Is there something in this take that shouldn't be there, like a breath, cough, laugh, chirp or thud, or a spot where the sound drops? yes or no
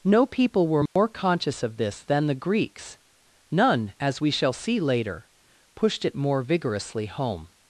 yes